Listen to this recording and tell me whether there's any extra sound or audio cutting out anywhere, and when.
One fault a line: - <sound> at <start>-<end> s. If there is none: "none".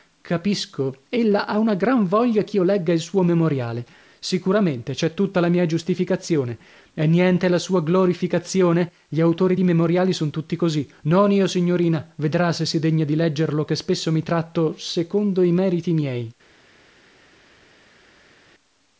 none